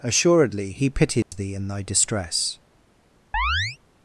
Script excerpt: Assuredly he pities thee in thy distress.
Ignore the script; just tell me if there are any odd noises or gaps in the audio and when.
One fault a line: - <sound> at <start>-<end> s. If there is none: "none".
- dropout at 1.2-1.3 s
- chirp at 3.3-3.8 s